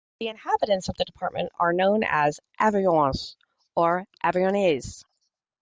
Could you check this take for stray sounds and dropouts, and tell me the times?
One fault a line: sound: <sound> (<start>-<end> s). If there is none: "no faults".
no faults